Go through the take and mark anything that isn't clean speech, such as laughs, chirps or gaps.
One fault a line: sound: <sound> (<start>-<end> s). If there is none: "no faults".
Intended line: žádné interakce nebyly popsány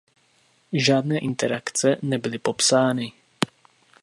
no faults